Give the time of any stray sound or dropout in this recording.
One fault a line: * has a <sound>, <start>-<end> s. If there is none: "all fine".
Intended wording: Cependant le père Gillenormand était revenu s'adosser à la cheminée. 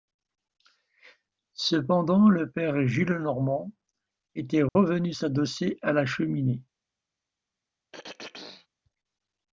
* has a dropout, 4.7-4.8 s
* has a throat clearing, 7.9-8.7 s